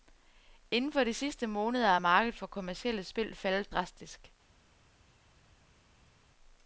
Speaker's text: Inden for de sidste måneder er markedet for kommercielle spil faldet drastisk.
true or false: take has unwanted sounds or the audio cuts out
false